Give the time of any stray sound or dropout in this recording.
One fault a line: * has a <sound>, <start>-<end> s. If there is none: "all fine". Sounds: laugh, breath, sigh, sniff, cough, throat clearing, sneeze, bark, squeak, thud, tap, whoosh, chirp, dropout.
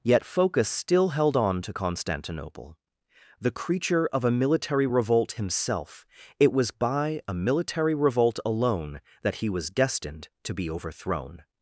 all fine